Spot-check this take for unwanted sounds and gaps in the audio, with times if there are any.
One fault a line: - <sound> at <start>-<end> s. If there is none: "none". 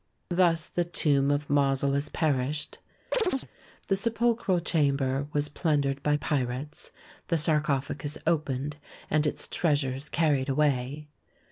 - chirp at 3.1-3.5 s